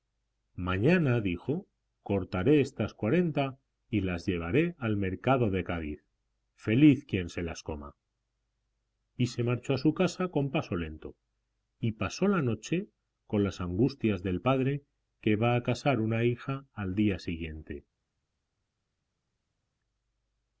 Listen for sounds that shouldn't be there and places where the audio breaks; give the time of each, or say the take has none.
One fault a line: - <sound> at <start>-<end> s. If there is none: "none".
none